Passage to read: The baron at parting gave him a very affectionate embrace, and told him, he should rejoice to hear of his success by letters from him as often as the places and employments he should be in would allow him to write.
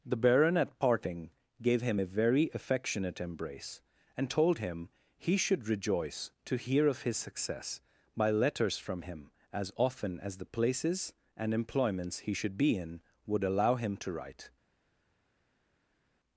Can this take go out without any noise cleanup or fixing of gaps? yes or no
yes